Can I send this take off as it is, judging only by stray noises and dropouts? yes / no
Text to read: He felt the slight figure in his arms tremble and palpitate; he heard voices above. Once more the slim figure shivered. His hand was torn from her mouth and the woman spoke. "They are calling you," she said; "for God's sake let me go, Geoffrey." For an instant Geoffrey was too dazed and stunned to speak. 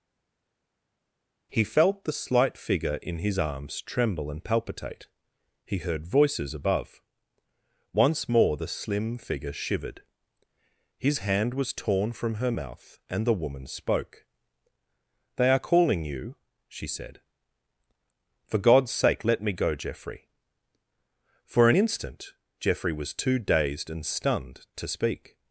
yes